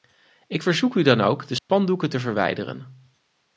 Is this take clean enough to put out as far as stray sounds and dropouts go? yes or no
no